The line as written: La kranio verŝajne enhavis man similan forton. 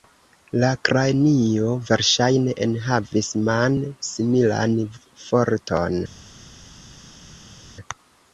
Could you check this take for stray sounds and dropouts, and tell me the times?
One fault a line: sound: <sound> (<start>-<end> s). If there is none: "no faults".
no faults